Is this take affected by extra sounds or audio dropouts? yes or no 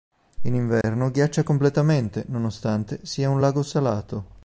yes